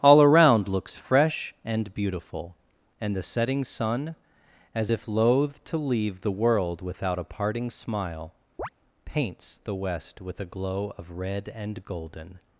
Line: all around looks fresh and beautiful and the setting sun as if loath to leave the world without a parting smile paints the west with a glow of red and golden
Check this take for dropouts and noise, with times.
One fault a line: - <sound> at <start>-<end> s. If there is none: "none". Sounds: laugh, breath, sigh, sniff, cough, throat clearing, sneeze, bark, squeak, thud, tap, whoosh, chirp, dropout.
- chirp at 8.6-8.7 s